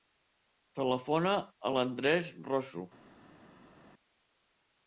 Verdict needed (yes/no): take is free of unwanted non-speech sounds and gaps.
yes